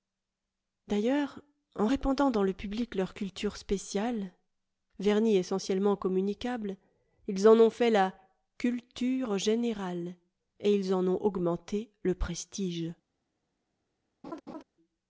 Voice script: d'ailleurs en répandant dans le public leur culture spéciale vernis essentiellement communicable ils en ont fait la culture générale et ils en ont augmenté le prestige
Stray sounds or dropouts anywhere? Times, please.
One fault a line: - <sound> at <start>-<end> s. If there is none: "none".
- laugh at 14.2-14.6 s